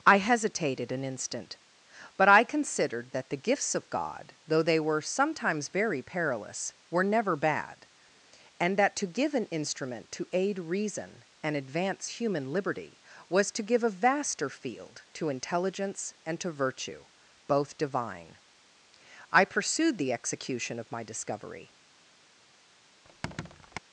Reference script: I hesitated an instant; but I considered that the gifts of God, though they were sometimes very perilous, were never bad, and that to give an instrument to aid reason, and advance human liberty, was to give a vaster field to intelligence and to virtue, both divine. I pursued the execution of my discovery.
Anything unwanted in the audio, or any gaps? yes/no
yes